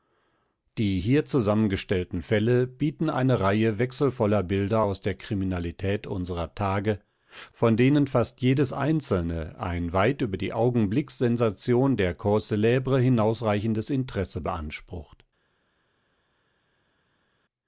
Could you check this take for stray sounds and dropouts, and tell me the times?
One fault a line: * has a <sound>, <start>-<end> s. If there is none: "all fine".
all fine